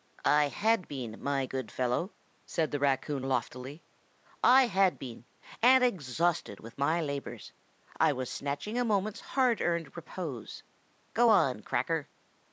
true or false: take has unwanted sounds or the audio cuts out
false